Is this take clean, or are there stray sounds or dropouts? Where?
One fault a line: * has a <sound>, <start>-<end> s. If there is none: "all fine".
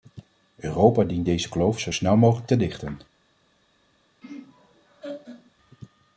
* has a laugh, 4.2-5.5 s